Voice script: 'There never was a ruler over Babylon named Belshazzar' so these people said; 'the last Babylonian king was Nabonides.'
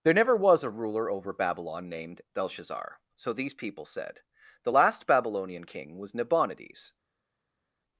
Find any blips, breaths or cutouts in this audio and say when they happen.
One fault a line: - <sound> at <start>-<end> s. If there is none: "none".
none